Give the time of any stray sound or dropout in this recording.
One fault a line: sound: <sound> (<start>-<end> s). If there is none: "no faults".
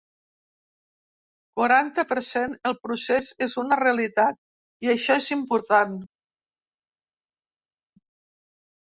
no faults